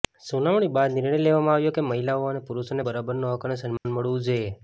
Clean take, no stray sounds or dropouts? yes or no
no